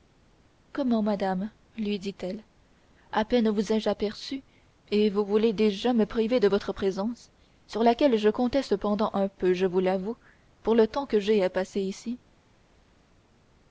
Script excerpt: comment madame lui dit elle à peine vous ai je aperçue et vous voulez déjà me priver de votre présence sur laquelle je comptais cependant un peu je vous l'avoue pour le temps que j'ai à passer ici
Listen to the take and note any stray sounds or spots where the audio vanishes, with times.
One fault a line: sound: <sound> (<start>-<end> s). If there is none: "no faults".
no faults